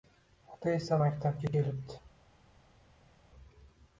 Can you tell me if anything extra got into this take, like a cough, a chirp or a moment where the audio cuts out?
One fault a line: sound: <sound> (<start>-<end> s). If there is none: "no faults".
no faults